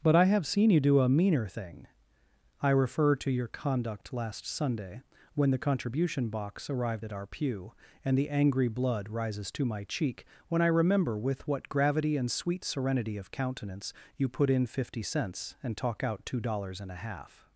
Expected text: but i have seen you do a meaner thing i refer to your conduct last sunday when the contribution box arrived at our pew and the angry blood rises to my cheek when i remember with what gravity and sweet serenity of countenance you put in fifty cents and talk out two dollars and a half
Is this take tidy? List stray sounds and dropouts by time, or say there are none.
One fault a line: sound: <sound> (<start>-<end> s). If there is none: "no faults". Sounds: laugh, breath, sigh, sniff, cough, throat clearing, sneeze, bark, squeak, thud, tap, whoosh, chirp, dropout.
no faults